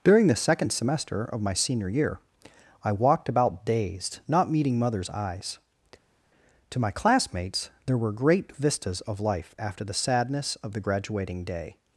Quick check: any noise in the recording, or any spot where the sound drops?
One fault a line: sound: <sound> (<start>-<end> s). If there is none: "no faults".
no faults